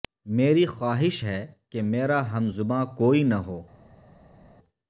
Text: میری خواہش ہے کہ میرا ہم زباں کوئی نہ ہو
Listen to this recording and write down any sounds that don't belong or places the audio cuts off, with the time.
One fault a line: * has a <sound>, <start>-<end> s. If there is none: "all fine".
all fine